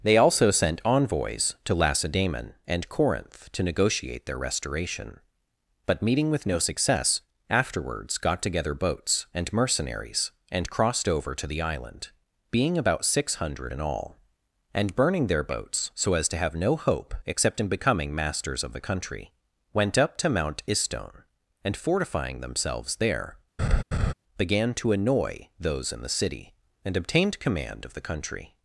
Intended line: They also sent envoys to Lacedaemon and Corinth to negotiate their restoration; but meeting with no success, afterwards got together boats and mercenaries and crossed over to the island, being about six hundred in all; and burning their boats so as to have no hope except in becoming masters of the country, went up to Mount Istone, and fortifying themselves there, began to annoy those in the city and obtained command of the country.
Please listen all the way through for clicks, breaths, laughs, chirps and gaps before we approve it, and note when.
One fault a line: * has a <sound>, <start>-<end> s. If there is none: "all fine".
* has a laugh, 23.6-24.1 s